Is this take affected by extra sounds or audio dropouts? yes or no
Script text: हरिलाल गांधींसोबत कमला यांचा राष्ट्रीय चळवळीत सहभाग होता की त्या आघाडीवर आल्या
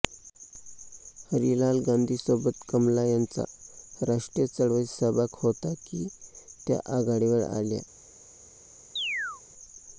yes